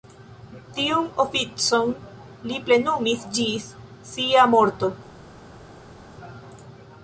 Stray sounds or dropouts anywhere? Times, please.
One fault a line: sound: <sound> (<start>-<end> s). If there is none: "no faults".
no faults